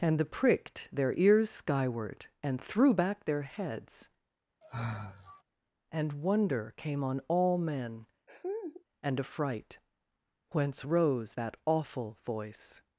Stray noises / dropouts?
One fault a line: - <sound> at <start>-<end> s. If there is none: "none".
- sigh at 4.6-5.4 s
- laugh at 8.3-8.8 s